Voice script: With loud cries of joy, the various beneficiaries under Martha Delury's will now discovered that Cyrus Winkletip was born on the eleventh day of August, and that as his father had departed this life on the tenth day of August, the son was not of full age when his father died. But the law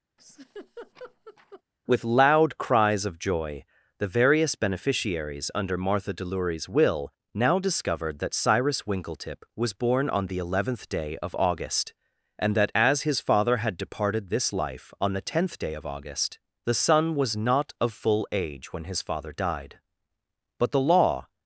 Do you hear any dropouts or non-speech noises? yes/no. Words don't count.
yes